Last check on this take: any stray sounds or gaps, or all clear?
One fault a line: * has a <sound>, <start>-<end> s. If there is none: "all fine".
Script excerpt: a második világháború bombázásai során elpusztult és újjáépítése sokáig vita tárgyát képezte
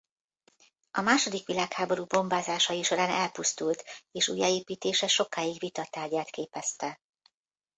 all fine